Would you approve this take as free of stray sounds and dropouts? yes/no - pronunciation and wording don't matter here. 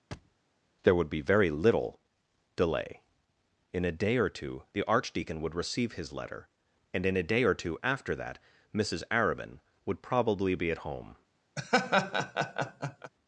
no